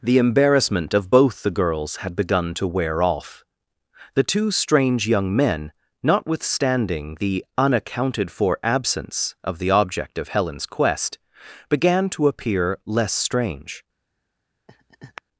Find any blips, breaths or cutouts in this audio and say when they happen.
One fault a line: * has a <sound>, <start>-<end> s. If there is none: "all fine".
* has a laugh, 14.7-15.2 s